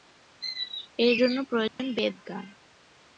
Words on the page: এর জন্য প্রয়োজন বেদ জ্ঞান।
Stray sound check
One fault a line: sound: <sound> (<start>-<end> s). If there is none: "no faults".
sound: dropout (1.7-1.8 s)